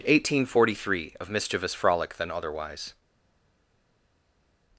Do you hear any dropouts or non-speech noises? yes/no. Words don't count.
no